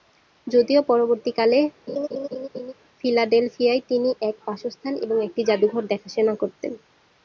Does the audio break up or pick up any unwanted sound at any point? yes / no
yes